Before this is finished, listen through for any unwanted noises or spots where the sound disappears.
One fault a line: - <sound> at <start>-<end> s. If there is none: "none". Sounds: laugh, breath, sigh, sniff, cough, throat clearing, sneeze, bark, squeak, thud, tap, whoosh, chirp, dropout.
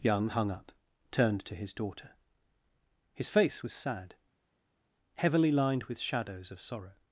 none